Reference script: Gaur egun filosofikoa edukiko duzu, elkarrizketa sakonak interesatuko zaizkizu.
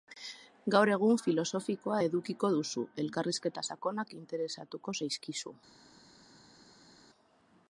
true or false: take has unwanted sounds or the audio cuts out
false